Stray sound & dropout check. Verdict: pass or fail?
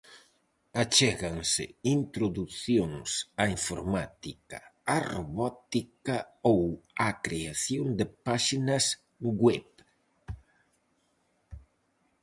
pass